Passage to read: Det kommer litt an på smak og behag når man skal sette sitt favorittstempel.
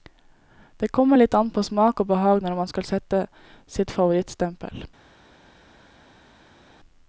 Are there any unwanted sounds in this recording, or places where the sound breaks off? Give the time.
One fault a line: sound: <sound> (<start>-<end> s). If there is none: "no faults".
no faults